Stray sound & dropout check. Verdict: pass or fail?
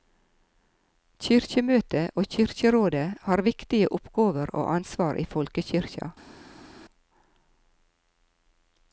pass